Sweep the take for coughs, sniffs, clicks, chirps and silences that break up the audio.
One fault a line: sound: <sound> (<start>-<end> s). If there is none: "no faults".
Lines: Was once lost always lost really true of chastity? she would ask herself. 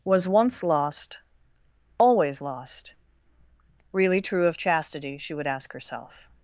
no faults